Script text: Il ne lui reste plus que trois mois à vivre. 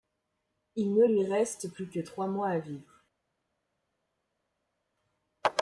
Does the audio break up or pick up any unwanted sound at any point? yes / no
no